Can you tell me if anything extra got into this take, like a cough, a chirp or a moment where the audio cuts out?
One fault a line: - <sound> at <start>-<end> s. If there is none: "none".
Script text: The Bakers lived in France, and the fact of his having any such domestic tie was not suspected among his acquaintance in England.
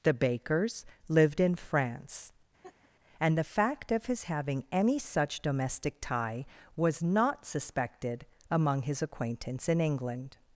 - laugh at 2.6-2.9 s